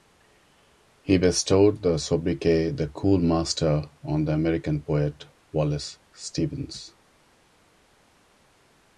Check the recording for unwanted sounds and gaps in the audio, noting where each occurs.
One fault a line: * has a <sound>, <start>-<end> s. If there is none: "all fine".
all fine